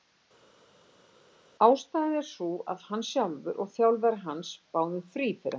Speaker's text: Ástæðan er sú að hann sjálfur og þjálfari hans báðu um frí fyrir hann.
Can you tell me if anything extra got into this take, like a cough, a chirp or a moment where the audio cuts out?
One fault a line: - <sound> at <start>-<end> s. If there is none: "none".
none